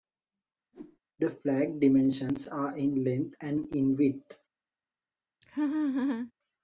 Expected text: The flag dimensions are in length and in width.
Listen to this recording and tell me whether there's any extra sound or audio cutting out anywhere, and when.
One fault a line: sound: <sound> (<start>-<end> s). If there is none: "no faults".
sound: whoosh (0.7-1.0 s)
sound: laugh (5.4-6.3 s)